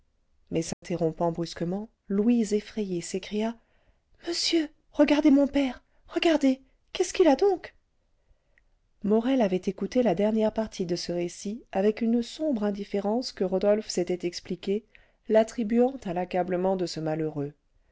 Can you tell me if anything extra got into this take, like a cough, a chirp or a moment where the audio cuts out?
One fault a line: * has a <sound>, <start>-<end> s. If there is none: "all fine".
* has a dropout, 0.7-0.8 s